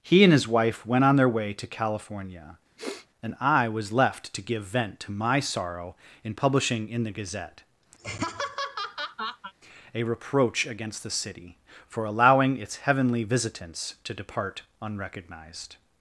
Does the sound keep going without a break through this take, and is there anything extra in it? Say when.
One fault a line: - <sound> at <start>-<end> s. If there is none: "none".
- sniff at 2.8-3.1 s
- laugh at 8.0-9.5 s